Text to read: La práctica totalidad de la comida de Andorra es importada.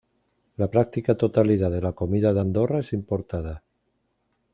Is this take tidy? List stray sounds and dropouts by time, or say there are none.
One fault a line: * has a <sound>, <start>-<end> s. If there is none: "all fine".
all fine